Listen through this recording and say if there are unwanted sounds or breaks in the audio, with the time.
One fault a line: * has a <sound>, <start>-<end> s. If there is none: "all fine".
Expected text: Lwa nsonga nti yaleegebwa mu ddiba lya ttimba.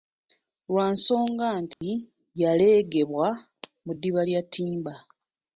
* has a dropout, 1.7-1.8 s